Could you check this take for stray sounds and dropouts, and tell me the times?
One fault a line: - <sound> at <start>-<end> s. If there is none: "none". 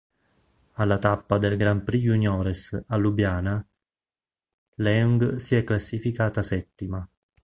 none